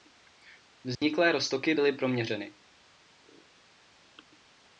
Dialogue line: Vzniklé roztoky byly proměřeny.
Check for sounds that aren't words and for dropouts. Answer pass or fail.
fail